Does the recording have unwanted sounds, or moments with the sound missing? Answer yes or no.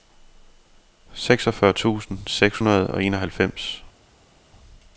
no